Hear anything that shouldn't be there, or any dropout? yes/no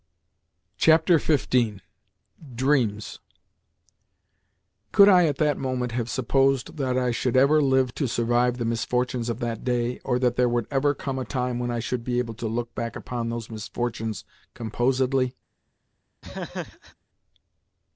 yes